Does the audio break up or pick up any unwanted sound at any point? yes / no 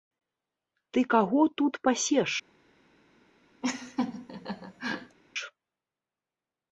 yes